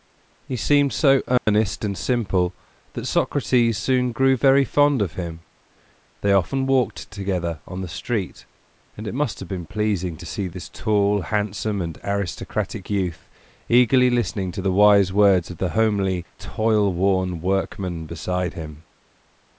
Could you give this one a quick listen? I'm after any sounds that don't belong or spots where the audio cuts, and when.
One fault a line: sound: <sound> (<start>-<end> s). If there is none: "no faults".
sound: dropout (1.4-1.5 s)